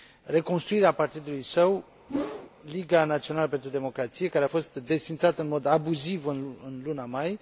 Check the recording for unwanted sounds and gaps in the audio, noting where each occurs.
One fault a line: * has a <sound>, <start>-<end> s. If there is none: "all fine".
* has a whoosh, 2.1-2.5 s